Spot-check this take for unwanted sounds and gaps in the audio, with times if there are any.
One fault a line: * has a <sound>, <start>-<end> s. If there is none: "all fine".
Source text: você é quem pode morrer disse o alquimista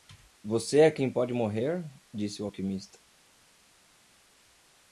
all fine